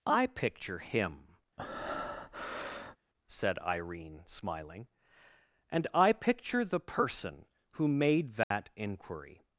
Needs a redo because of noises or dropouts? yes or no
yes